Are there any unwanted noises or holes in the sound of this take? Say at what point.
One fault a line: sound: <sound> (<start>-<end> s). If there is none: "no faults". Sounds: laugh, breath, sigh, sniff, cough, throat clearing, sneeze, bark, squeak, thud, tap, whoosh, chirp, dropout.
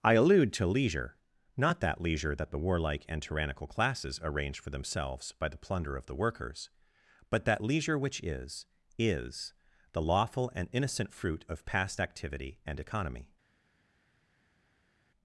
no faults